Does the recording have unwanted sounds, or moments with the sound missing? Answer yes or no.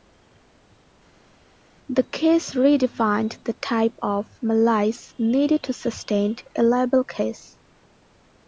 no